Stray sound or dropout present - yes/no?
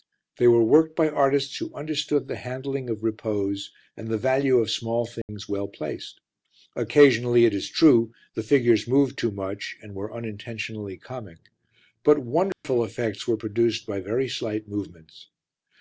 yes